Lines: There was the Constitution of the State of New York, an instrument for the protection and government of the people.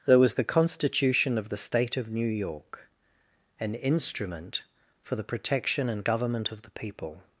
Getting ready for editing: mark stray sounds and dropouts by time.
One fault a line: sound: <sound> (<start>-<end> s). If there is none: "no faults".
no faults